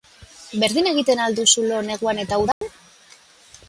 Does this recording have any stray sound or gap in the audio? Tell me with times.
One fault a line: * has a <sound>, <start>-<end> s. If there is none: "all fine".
* has a dropout, 2.5-2.6 s